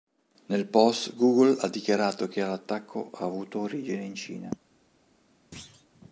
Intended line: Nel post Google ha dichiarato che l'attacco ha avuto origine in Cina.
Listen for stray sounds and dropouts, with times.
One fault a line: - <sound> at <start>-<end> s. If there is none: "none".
- thud at 5.5-5.9 s